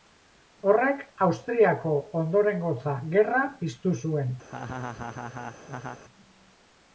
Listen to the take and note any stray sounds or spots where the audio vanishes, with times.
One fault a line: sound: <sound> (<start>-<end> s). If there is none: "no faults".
sound: laugh (4.5-6.0 s)